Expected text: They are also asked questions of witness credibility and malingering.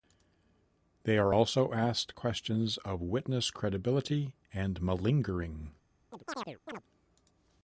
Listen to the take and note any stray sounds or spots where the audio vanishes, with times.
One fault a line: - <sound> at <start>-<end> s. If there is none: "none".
- chirp at 6.1-6.8 s